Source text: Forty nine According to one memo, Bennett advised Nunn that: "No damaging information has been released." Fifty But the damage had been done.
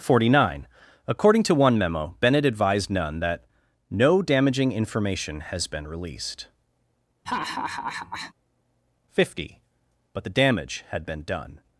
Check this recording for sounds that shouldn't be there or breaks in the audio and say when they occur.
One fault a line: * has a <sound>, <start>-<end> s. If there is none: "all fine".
* has a laugh, 7.3-8.3 s